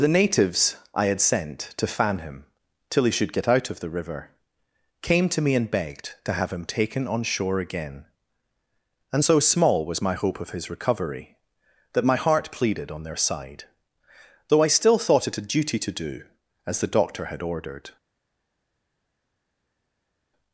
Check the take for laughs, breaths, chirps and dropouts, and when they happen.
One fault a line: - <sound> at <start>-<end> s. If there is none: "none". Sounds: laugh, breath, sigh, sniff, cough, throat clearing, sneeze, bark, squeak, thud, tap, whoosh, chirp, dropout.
none